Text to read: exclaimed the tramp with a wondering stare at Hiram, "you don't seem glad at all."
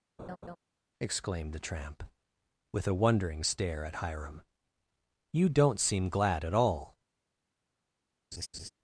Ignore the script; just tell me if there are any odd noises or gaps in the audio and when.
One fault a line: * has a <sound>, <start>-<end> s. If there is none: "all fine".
* has a laugh, 0.2-0.6 s
* has a laugh, 8.3-8.7 s